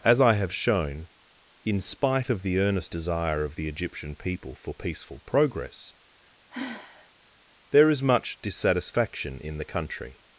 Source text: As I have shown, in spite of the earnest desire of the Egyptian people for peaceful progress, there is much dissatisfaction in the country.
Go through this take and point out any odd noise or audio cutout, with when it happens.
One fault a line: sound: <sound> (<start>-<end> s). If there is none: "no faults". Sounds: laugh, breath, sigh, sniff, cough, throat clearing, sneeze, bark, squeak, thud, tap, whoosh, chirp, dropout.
sound: sigh (6.5-7.1 s)